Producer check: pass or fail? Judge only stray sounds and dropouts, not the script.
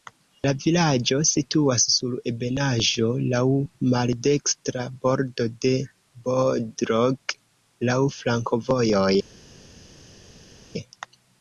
pass